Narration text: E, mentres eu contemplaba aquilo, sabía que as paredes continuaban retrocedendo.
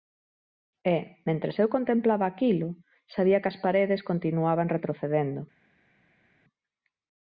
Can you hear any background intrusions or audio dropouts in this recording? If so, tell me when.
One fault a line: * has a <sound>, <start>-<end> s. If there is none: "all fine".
all fine